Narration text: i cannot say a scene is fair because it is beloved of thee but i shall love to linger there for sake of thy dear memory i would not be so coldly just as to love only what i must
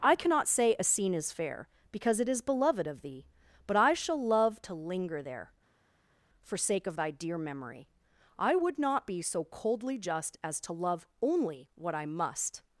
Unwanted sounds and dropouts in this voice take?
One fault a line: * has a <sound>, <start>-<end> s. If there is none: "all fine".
all fine